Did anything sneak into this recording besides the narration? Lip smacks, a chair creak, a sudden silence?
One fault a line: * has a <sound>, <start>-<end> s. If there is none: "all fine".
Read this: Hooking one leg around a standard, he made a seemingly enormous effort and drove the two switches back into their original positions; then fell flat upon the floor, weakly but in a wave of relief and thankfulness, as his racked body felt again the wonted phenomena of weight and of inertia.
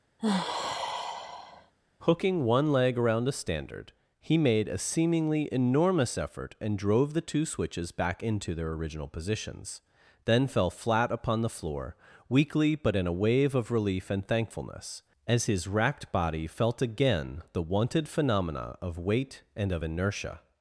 * has a sigh, 0.2-1.7 s